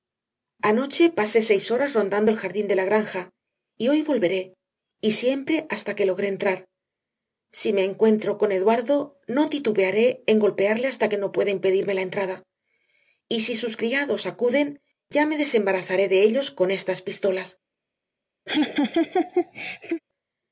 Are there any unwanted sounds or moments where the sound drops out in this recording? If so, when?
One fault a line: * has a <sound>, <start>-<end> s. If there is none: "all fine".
* has a laugh, 18.5-20.0 s